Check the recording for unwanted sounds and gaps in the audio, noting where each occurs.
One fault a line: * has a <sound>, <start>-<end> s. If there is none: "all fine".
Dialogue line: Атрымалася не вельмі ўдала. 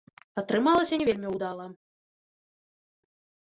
all fine